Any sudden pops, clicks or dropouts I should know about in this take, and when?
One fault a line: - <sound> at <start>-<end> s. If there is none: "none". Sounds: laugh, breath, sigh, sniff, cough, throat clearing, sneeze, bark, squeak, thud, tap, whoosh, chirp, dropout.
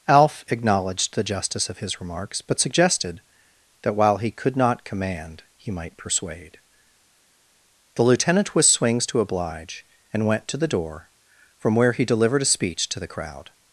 none